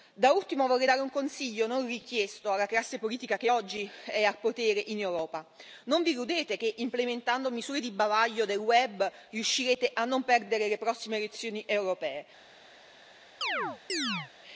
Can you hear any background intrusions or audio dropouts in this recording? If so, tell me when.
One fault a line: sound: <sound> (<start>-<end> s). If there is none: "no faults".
sound: chirp (13.4-14.3 s)